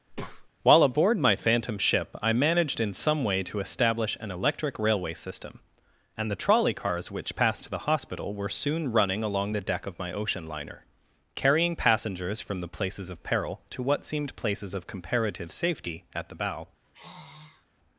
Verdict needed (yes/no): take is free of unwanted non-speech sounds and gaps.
no